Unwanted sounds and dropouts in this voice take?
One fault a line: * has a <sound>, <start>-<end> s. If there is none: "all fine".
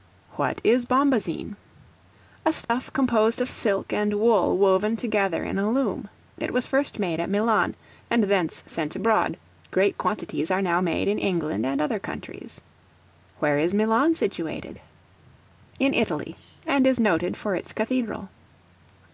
* has a dropout, 2.6-2.7 s